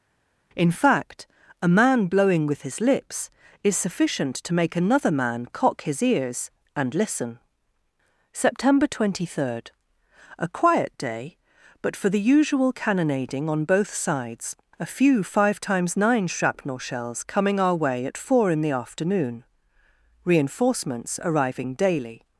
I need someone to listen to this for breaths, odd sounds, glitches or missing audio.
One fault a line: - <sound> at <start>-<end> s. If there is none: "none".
none